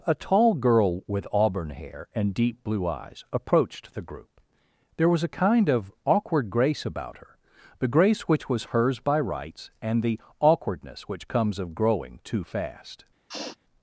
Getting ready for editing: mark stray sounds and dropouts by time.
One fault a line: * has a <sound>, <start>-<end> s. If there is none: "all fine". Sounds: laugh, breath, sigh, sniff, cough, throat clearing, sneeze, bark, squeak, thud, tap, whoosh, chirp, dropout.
* has a sniff, 13.3-13.6 s